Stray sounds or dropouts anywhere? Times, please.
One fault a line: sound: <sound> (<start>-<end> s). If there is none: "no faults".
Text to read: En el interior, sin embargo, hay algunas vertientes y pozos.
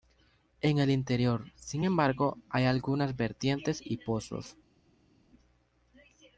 no faults